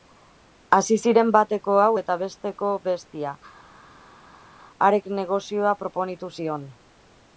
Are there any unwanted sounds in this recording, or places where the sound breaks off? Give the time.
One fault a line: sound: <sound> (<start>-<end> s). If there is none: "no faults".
no faults